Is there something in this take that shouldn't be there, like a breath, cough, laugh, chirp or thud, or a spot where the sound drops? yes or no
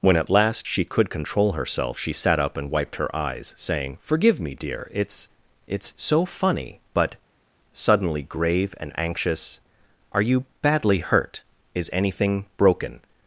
no